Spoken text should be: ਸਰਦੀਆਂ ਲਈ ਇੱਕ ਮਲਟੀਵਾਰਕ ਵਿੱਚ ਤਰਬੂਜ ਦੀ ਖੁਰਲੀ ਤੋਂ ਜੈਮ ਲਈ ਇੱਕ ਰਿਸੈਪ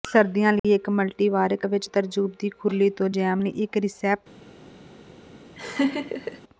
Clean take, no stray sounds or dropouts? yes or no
no